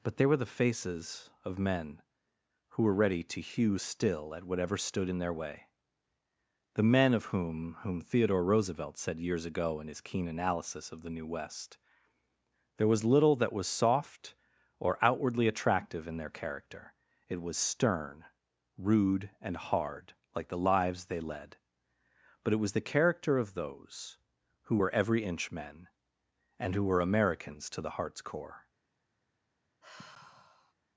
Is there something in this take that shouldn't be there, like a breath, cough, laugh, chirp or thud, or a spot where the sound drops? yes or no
yes